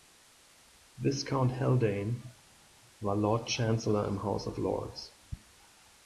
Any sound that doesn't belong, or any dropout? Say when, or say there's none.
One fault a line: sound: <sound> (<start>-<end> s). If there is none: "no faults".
no faults